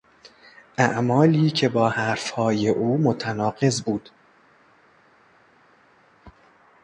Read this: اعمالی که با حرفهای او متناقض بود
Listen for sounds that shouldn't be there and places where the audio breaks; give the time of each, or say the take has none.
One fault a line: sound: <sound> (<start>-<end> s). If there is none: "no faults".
no faults